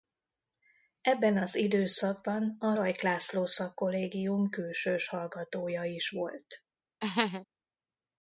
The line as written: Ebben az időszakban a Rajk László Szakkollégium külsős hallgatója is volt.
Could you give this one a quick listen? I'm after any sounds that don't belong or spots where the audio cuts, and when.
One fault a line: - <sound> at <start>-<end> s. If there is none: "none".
- laugh at 7.0-7.5 s